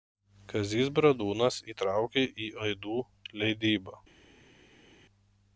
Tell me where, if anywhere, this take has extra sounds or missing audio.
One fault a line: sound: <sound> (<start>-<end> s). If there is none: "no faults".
no faults